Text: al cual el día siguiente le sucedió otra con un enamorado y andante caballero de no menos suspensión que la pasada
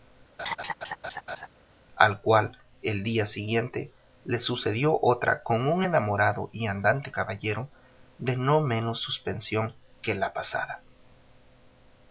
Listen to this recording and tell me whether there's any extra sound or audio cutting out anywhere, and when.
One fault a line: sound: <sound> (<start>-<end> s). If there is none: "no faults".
sound: laugh (0.4-1.5 s)